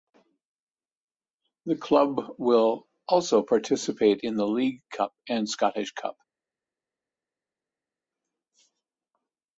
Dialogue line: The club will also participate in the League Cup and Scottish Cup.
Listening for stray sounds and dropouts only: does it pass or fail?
pass